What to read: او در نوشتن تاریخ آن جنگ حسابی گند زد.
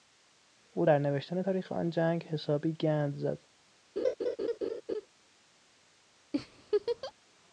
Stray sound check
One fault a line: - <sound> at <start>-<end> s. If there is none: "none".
- laugh at 4.0-5.1 s
- laugh at 6.3-7.1 s